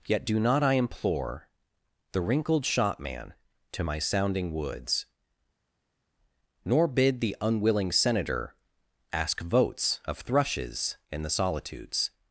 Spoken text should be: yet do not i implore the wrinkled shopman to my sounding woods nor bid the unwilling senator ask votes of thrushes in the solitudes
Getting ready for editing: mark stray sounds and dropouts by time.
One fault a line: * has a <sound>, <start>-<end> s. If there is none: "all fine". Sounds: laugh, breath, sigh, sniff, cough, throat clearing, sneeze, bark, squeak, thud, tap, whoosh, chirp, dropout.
all fine